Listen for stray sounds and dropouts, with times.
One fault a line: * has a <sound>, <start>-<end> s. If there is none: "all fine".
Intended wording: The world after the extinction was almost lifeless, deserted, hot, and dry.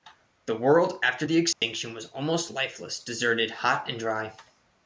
* has a dropout, 1.5-1.6 s